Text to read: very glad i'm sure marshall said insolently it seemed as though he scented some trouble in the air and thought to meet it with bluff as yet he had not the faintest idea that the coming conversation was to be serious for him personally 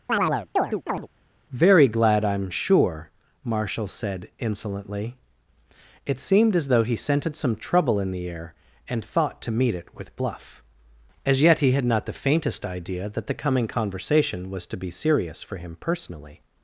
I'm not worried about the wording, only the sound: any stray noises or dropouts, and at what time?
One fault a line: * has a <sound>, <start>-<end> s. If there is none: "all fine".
* has a chirp, 0.1-1.1 s